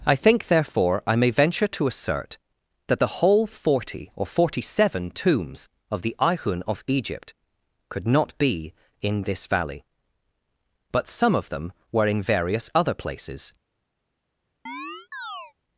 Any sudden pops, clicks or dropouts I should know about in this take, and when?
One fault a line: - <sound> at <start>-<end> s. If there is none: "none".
- chirp at 14.7-15.5 s